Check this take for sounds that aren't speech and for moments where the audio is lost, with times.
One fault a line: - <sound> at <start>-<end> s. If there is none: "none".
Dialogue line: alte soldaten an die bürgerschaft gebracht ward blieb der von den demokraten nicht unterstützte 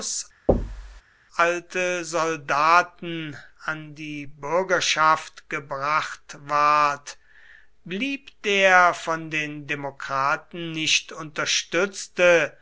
- thud at 0.5-1.0 s